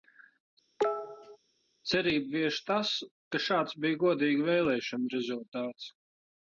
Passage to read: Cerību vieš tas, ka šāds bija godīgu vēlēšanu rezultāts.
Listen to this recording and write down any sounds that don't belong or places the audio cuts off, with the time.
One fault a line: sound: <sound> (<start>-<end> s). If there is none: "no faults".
sound: cough (0.8-1.4 s)